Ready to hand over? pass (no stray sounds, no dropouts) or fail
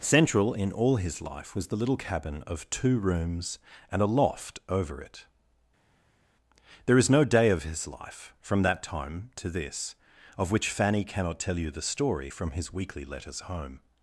pass